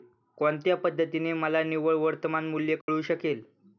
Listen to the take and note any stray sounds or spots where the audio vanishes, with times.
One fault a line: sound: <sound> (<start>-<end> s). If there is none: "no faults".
sound: dropout (2.8-2.9 s)